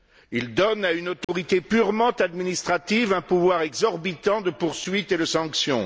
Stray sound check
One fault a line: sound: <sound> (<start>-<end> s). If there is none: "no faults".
sound: dropout (1.2-1.3 s)